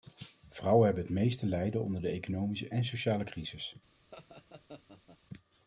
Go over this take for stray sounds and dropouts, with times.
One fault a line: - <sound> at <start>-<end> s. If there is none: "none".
- laugh at 4.1-5.2 s